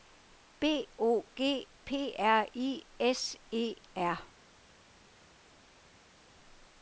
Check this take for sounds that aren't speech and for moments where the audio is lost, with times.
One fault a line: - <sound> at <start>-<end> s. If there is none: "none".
none